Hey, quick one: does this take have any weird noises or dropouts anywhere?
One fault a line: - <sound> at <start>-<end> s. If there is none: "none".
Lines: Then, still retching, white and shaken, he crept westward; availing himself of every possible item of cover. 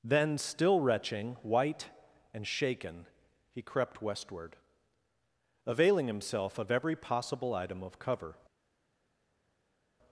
none